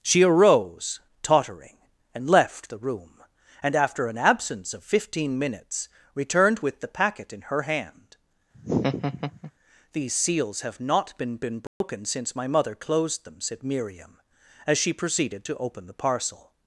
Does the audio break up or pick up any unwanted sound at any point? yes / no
yes